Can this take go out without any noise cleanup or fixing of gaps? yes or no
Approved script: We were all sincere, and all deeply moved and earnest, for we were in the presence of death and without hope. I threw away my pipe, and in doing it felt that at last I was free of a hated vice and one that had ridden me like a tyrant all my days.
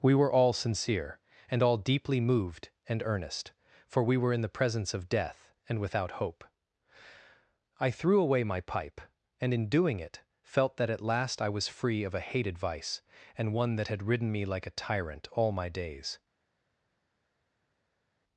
yes